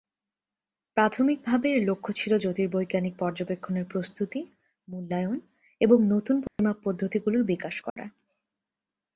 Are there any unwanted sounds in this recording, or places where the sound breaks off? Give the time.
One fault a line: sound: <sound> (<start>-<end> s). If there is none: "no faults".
sound: dropout (6.5-6.6 s)
sound: dropout (7.9-8.0 s)